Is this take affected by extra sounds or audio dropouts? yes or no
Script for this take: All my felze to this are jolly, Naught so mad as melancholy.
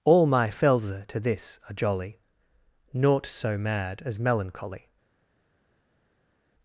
no